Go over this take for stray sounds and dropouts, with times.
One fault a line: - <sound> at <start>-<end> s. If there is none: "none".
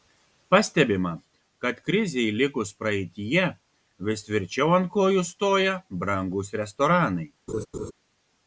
- laugh at 7.5-7.9 s